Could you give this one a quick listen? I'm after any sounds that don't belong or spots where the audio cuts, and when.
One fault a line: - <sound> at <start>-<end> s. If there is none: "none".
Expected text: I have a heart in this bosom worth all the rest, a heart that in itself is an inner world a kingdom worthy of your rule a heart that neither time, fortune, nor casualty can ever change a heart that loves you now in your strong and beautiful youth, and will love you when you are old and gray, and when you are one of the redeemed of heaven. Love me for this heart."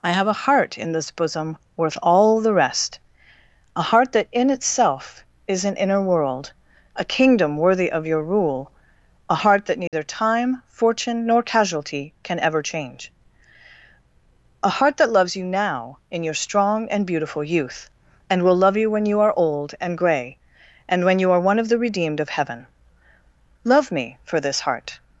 - dropout at 9.9-9.9 s